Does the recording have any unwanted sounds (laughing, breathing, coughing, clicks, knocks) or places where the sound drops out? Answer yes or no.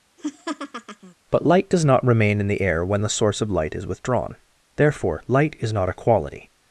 yes